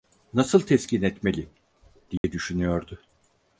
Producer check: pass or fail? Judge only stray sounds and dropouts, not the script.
fail